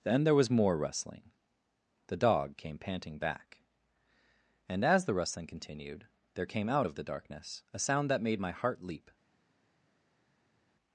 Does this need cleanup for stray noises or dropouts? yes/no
no